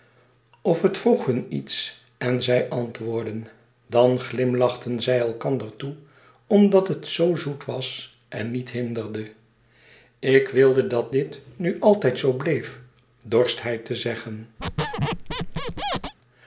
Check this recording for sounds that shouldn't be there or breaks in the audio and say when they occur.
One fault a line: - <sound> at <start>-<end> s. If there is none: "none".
- squeak at 14.6-16.1 s